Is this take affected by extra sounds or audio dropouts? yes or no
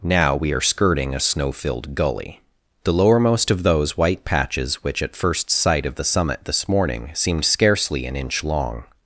no